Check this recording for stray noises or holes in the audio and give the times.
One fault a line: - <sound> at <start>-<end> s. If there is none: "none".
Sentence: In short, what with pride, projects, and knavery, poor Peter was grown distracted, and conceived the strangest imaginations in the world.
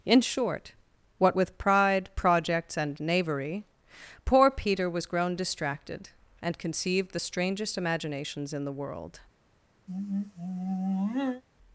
- sigh at 9.9-11.4 s